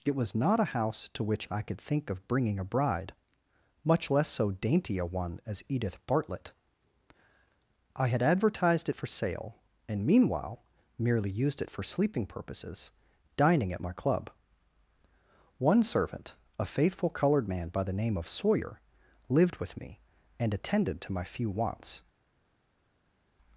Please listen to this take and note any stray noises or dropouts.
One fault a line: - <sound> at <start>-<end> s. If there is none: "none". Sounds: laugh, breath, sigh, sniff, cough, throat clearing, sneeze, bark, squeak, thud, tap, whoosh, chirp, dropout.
none